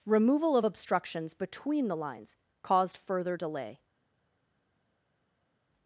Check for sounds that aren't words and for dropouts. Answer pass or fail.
pass